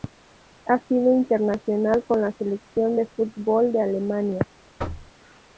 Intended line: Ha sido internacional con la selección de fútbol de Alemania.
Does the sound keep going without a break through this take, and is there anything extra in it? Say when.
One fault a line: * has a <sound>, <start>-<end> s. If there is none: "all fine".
* has a thud, 4.8-5.1 s